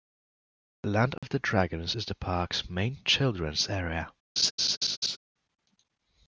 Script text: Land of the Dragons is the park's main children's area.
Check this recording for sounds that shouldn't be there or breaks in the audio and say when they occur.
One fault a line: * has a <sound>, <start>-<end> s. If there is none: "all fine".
* has a dropout, 1.2-1.2 s
* has a laugh, 4.4-5.2 s